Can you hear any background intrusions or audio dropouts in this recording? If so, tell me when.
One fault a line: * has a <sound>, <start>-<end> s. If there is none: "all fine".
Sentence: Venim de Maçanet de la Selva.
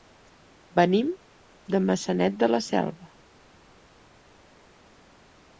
all fine